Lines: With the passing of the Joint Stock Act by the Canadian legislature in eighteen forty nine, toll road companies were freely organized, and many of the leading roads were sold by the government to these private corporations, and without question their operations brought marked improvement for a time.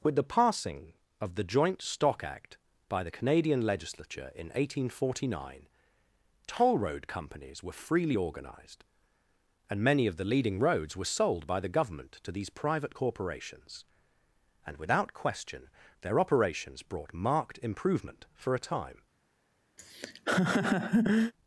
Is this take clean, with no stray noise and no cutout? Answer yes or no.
no